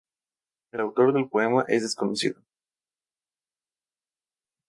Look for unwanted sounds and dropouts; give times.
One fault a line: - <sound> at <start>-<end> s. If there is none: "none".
none